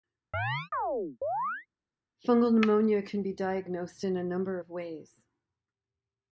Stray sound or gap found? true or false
true